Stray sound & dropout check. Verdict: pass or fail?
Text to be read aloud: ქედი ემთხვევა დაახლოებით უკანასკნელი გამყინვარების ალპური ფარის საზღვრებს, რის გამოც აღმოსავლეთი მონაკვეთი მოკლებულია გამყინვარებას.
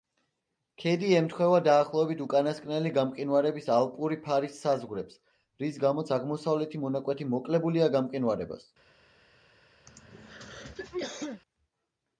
fail